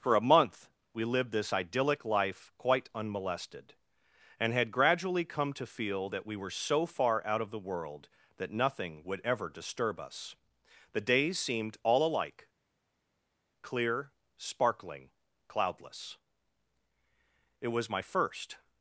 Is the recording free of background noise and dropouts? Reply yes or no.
yes